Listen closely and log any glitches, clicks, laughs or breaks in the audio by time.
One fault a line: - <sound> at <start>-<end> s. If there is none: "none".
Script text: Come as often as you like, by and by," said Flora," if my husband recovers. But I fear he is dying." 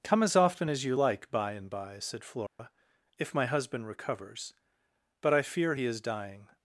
- dropout at 2.5-2.6 s